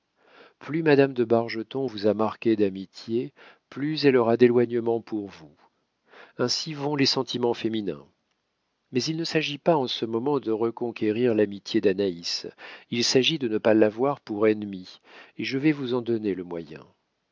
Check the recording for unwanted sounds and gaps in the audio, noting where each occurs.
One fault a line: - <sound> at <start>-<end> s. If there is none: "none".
none